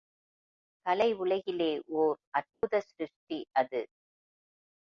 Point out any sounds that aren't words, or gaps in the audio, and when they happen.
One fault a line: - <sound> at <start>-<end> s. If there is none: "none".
- dropout at 2.5-2.6 s